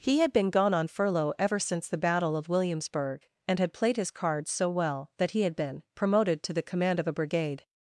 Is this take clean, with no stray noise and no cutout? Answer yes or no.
yes